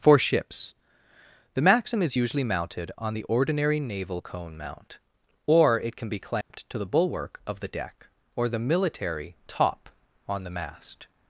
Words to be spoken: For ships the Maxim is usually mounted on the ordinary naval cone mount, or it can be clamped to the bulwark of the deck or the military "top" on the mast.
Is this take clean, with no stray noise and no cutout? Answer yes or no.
no